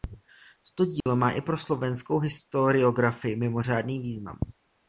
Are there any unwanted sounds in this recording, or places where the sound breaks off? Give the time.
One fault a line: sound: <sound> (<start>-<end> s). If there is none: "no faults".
sound: dropout (1.0-1.1 s)